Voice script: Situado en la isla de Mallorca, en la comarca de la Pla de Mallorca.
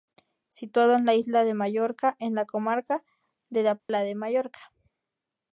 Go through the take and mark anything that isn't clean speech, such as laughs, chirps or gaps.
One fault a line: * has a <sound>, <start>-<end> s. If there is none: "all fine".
* has a dropout, 3.8-3.9 s